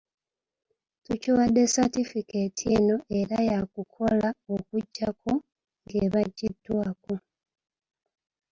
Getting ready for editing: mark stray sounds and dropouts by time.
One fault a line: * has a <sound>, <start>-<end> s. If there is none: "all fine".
all fine